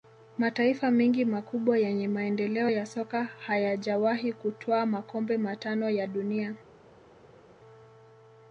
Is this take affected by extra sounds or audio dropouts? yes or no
no